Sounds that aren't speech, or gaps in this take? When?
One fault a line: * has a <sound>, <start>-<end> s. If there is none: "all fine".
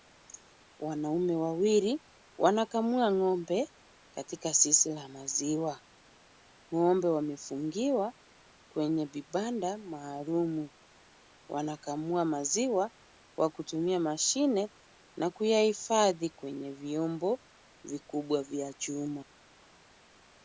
all fine